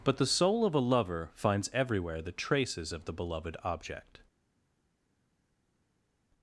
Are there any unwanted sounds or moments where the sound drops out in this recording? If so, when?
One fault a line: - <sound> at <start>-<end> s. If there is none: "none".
none